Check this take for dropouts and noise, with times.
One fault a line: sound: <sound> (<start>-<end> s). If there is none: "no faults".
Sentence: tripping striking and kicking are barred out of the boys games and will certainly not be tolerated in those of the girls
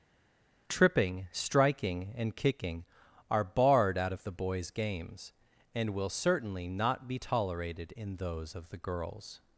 no faults